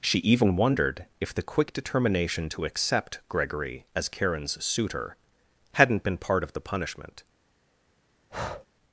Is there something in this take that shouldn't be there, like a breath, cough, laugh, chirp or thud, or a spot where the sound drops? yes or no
yes